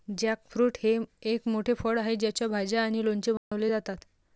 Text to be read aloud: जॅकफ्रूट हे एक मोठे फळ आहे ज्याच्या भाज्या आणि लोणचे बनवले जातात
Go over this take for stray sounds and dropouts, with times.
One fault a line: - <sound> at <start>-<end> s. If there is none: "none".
- dropout at 3.4-3.5 s